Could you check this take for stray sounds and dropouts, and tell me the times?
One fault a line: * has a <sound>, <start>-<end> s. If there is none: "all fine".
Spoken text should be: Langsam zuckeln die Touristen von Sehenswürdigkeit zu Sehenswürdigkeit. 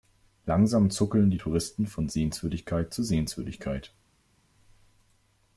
all fine